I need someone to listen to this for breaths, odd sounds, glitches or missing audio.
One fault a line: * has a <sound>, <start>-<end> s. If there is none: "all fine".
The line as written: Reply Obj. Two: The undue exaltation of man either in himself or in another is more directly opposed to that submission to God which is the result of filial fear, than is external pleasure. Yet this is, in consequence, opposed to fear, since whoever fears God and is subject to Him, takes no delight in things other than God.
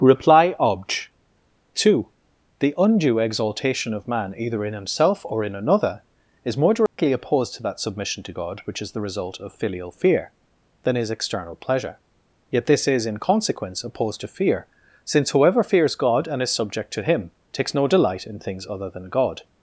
* has a dropout, 6.9-7.0 s